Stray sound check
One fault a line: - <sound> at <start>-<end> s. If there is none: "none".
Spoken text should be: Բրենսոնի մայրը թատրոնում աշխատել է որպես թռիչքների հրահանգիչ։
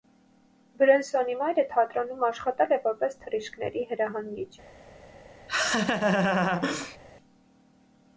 - laugh at 5.5-7.0 s